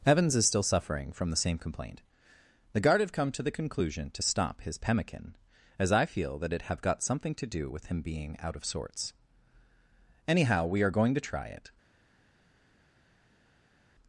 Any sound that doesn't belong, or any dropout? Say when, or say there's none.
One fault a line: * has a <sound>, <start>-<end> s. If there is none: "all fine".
all fine